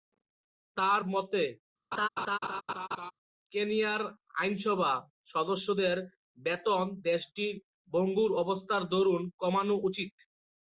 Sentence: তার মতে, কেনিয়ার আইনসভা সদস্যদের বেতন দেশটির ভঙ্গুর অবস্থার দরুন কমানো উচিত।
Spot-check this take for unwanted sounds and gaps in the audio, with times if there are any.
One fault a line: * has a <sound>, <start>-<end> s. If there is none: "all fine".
* has a laugh, 1.9-3.1 s